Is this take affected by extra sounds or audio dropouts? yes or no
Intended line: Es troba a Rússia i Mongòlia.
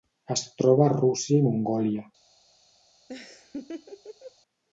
yes